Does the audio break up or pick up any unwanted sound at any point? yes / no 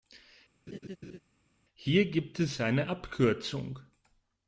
yes